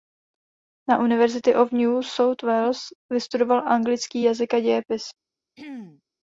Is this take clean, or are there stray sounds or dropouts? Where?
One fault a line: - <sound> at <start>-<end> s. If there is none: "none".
- throat clearing at 5.6-6.0 s